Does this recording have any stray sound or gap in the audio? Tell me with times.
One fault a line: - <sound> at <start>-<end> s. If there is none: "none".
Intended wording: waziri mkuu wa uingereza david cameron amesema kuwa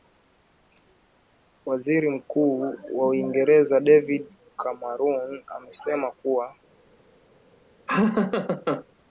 - laugh at 7.9-8.8 s